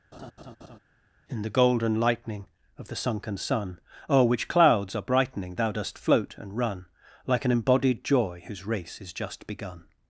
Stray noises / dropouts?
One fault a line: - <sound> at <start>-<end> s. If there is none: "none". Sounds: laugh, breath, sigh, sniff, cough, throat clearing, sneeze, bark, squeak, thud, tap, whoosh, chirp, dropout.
- laugh at 0.1-0.8 s